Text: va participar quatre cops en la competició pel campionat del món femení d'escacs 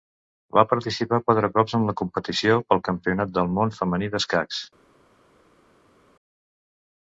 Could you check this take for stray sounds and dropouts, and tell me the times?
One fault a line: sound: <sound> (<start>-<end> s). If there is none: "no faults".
no faults